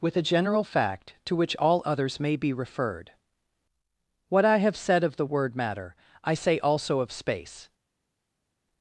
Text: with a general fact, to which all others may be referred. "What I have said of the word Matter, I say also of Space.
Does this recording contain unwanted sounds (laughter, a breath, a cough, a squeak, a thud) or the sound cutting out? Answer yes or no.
no